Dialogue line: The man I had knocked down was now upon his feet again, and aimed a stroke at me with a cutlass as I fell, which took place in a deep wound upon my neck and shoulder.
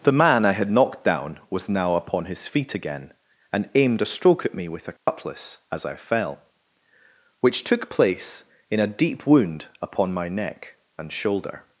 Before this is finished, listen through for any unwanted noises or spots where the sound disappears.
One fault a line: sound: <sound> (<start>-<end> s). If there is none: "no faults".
sound: dropout (5.0-5.1 s)